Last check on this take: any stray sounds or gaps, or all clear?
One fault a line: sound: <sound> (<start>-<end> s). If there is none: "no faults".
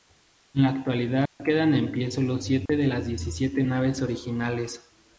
sound: dropout (1.3-1.4 s)
sound: dropout (2.7-2.7 s)